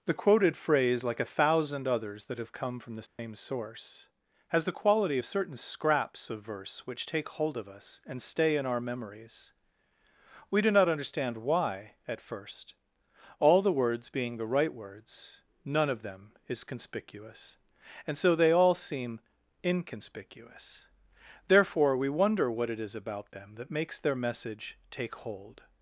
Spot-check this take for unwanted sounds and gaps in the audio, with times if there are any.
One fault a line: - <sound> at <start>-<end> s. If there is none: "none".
- dropout at 3.1-3.2 s